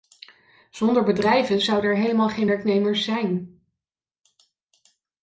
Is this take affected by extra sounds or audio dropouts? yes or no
no